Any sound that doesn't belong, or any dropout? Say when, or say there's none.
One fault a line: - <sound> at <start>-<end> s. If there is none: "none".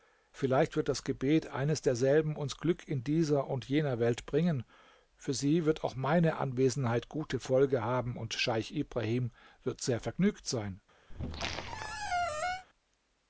- squeak at 11.1-12.7 s